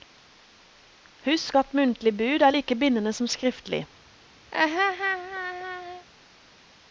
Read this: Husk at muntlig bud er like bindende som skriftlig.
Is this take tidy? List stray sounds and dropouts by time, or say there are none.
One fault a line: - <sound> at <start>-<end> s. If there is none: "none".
- laugh at 4.5-6.1 s